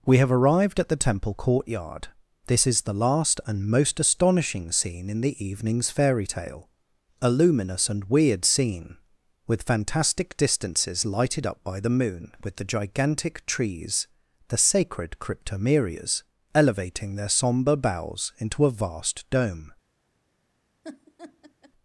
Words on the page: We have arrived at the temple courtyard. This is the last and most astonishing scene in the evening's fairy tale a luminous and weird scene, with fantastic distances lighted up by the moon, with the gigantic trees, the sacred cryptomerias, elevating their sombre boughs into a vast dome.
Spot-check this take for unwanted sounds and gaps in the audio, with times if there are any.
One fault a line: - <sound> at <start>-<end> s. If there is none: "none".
- laugh at 20.8-21.7 s